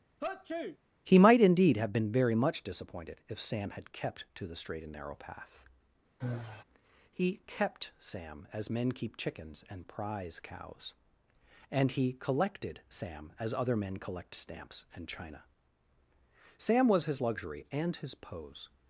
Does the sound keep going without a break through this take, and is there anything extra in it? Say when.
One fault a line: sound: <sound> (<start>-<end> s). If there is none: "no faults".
sound: sneeze (0.2-0.8 s)
sound: sigh (6.2-6.6 s)